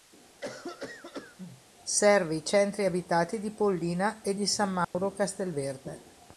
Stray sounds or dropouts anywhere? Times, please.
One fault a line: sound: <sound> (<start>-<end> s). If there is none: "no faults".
sound: cough (0.4-1.6 s)
sound: dropout (4.8-4.9 s)